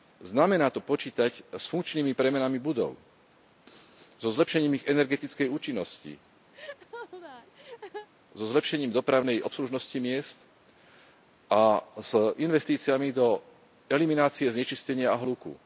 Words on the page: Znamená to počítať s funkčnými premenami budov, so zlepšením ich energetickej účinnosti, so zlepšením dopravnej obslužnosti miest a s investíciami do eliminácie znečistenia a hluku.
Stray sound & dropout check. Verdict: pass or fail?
fail